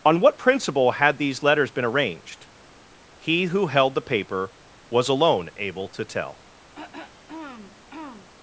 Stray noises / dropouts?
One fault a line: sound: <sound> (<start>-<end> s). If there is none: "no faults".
sound: throat clearing (6.7-8.3 s)